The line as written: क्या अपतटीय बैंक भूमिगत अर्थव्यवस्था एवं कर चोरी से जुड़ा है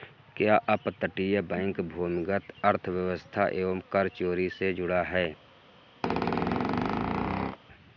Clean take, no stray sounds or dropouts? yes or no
no